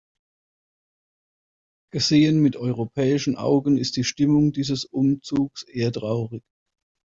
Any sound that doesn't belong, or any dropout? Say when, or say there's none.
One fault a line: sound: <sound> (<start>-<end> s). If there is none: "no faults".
no faults